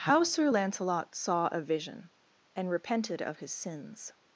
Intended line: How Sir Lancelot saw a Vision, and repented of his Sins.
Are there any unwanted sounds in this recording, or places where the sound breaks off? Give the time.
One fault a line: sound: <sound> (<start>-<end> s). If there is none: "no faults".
no faults